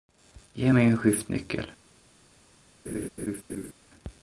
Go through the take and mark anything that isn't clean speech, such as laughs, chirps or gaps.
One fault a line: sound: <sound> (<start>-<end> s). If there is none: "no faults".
sound: laugh (2.9-3.7 s)